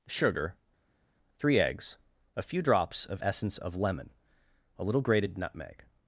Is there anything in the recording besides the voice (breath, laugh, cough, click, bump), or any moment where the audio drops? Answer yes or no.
no